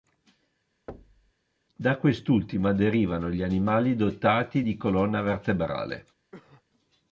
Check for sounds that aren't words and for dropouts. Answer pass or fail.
fail